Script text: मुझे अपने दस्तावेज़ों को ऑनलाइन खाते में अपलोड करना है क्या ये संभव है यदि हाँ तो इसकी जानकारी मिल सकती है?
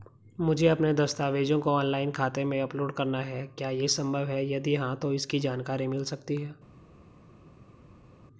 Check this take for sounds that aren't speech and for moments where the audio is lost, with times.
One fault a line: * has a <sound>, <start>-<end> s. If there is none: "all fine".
all fine